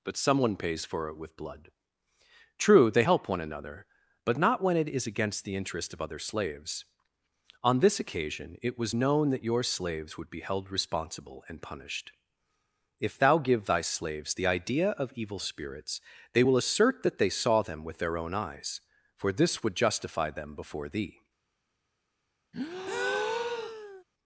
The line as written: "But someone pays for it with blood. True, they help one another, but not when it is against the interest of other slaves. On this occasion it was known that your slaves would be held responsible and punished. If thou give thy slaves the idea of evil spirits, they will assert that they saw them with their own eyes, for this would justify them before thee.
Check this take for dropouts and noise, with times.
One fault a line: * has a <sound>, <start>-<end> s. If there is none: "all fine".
* has a breath, 22.5-24.0 s